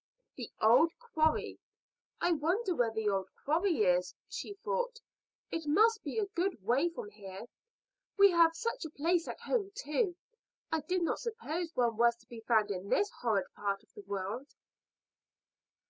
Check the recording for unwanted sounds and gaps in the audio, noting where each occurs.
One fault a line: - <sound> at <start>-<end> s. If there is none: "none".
none